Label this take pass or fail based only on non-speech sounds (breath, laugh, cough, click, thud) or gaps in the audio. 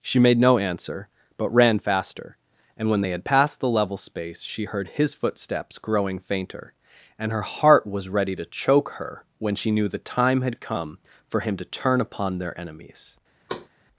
fail